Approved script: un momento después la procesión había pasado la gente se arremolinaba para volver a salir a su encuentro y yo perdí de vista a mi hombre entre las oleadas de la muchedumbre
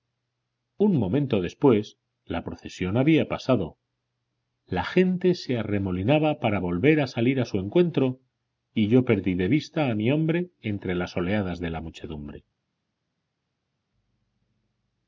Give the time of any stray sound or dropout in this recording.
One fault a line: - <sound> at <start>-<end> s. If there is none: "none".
none